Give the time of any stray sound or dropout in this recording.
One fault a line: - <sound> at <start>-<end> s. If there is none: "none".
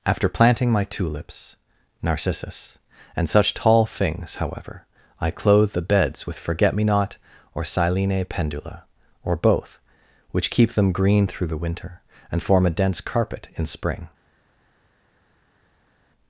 none